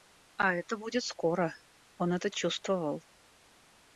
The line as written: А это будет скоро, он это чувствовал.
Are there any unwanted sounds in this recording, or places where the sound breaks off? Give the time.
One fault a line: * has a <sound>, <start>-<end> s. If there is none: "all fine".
all fine